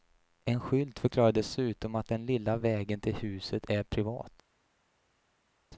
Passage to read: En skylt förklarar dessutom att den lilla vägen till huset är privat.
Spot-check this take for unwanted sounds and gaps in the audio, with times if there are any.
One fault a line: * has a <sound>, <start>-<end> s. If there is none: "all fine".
all fine